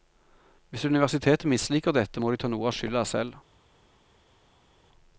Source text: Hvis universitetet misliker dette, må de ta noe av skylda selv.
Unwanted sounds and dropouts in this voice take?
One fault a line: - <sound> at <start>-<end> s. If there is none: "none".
none